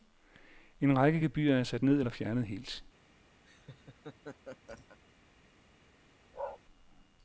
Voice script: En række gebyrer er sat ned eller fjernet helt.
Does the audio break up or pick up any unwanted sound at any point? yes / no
yes